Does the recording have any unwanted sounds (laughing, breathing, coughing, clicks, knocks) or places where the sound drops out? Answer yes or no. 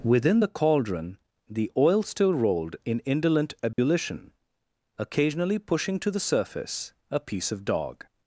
yes